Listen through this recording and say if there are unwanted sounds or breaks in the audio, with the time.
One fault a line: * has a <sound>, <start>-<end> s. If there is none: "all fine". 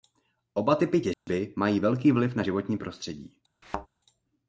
* has a dropout, 1.1-1.3 s
* has a thud, 3.6-3.9 s